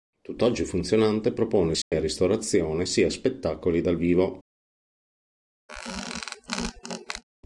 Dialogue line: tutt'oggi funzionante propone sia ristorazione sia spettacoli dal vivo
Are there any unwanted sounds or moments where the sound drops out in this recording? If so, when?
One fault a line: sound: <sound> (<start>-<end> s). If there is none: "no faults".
sound: dropout (1.8-1.9 s)
sound: squeak (5.7-7.2 s)